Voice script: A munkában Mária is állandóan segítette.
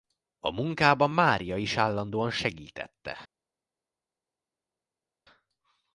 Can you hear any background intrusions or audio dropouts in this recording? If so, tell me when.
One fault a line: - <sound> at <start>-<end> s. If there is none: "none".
none